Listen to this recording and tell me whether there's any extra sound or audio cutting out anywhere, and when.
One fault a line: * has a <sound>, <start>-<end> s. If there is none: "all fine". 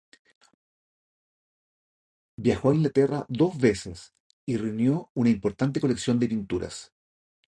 all fine